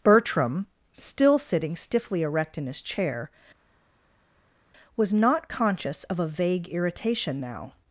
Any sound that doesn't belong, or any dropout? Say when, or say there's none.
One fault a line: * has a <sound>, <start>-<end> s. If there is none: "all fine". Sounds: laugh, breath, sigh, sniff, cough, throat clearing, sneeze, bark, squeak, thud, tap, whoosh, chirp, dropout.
all fine